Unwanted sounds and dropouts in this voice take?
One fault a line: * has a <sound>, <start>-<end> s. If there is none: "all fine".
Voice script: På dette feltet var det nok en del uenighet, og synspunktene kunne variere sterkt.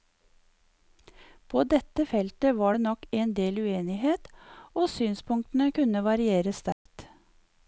* has a dropout, 6.7-6.9 s